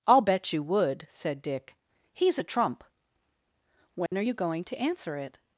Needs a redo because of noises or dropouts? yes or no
yes